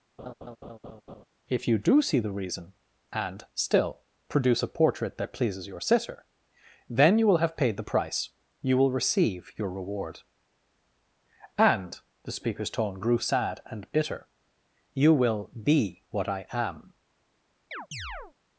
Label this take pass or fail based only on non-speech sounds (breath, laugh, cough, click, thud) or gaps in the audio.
fail